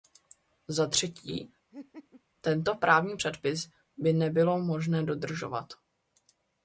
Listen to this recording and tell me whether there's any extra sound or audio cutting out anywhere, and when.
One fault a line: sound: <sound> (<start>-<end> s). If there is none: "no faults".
sound: laugh (1.7-2.2 s)